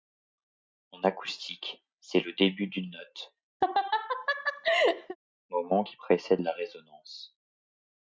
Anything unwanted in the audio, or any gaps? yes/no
yes